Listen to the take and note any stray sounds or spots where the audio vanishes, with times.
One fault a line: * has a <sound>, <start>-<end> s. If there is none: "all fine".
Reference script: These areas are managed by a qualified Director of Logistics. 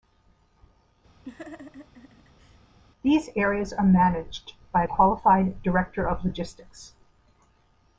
* has a laugh, 1.2-2.6 s